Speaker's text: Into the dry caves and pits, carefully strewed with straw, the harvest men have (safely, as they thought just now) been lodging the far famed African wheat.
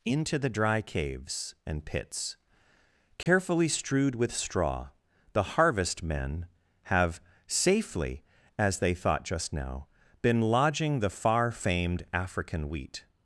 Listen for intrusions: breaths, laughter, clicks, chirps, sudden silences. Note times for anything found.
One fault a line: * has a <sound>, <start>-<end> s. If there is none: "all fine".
* has a dropout, 3.2-3.3 s